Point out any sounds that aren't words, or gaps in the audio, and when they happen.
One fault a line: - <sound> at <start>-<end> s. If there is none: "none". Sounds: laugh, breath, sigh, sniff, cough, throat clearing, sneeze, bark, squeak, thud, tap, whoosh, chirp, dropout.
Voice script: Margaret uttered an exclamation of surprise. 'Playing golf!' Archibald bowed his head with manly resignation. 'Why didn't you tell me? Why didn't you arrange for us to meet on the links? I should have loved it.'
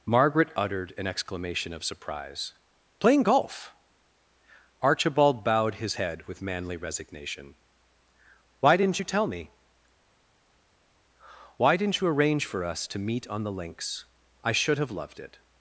none